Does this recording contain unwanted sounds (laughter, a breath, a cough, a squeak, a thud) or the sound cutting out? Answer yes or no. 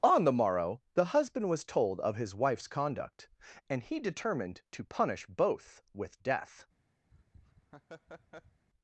yes